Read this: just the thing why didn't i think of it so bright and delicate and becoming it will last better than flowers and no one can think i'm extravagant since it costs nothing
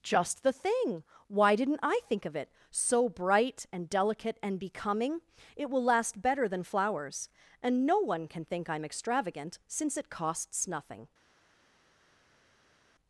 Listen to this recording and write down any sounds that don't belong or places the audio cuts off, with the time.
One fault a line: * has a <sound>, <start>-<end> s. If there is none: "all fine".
all fine